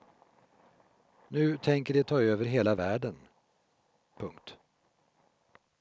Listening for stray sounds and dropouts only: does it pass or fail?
pass